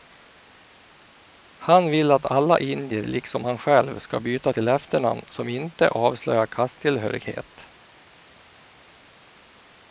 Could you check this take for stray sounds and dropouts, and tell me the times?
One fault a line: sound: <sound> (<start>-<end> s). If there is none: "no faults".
no faults